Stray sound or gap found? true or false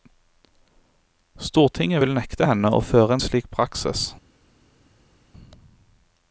false